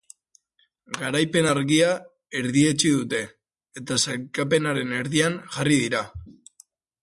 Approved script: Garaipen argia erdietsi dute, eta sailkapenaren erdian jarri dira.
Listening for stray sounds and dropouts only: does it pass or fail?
pass